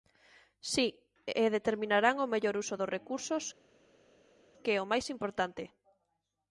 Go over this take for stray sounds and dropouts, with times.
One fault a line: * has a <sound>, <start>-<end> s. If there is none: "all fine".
all fine